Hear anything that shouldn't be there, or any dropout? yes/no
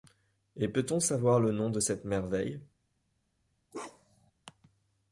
yes